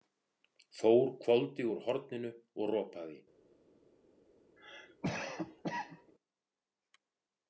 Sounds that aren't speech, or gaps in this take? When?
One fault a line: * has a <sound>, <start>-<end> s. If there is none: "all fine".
* has a cough, 4.6-6.1 s